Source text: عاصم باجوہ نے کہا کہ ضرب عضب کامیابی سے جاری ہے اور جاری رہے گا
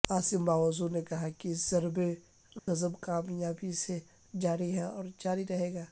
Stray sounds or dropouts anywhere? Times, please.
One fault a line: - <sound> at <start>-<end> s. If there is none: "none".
- dropout at 2.6-2.7 s